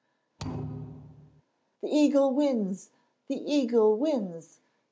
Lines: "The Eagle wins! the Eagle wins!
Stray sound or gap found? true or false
true